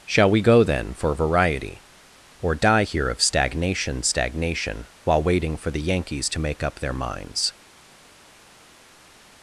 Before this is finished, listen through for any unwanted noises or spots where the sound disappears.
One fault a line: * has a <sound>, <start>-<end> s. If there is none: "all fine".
all fine